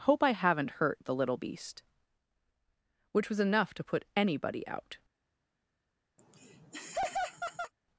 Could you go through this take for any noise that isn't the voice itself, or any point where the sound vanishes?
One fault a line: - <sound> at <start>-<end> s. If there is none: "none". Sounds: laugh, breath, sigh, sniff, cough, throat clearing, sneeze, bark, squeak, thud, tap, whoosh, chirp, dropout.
- laugh at 6.2-7.7 s